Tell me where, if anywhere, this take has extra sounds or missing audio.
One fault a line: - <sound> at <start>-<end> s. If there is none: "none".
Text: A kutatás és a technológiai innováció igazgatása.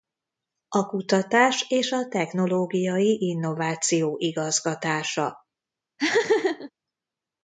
- laugh at 6.0-6.7 s